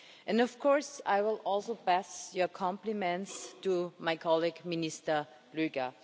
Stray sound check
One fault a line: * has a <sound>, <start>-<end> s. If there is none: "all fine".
all fine